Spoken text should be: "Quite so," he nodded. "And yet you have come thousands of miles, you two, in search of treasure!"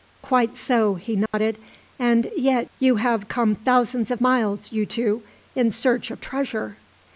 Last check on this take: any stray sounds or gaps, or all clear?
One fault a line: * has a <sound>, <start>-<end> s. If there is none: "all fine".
* has a dropout, 1.3-1.3 s